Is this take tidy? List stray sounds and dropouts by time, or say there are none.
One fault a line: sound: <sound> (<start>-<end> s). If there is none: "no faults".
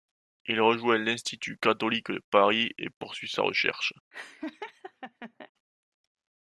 sound: laugh (4.1-5.5 s)